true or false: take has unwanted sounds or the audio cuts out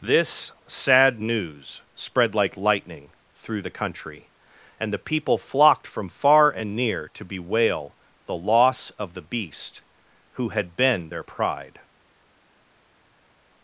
false